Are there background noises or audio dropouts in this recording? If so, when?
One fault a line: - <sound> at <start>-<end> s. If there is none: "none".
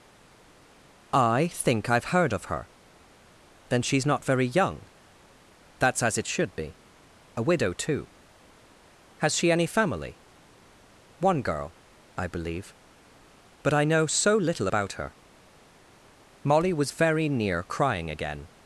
none